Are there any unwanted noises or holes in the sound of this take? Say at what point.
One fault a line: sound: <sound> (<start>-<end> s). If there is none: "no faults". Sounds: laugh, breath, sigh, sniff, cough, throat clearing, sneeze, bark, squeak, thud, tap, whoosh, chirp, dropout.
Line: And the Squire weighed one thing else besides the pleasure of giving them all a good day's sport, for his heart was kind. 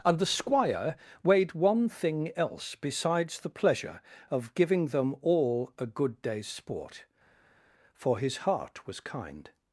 no faults